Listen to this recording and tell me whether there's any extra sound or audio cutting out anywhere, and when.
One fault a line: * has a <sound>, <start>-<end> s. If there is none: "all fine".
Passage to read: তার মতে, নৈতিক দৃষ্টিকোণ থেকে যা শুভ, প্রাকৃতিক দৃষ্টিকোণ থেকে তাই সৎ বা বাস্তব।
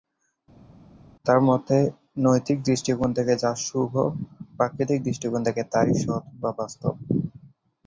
all fine